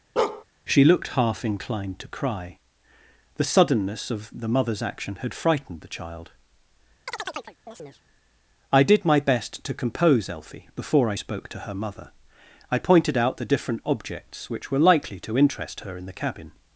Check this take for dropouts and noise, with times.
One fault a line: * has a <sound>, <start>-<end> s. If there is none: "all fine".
* has a bark, 0.2-0.4 s
* has a chirp, 7.1-8.0 s